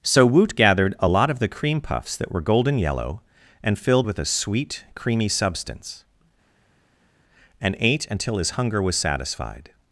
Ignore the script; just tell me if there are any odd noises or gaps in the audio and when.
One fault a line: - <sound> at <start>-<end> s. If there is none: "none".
none